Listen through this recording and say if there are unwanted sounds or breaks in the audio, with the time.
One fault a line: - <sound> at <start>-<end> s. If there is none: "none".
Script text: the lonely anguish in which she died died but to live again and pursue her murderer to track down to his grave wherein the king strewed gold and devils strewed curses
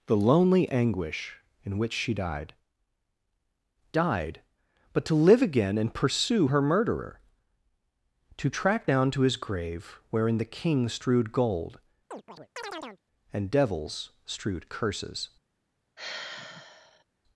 - chirp at 12.1-13.0 s
- sigh at 16.0-17.0 s